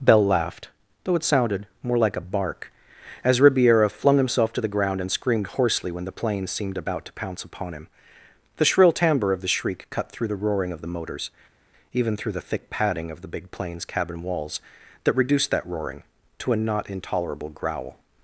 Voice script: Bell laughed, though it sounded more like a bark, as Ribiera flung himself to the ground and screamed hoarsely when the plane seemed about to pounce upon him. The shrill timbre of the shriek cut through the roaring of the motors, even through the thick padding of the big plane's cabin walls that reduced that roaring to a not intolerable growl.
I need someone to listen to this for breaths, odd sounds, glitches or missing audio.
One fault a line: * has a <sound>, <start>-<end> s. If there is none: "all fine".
all fine